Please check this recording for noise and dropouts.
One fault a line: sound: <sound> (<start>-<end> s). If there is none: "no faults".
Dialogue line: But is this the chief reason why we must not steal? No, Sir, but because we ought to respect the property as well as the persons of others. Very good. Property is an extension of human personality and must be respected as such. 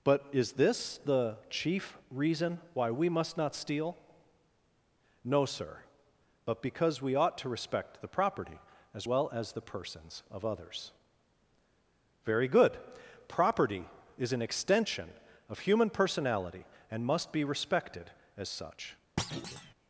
sound: thud (19.2-19.7 s)